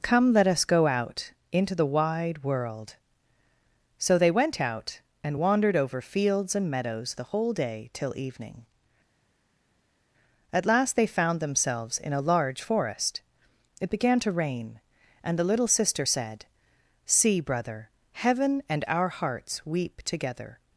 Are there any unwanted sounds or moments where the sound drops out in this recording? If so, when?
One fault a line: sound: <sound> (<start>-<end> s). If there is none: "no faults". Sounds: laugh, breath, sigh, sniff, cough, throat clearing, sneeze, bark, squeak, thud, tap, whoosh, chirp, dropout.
no faults